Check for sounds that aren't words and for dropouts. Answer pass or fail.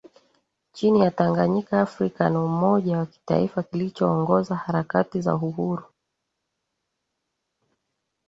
pass